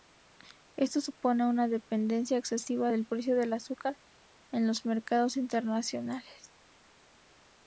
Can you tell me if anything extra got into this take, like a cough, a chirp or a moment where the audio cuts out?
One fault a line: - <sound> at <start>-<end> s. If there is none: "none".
none